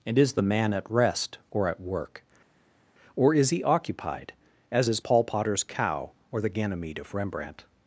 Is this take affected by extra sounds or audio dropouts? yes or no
no